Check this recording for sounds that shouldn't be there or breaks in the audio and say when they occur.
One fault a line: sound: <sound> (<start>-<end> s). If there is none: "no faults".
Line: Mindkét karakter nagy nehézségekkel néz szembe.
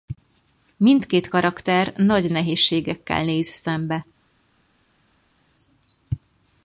no faults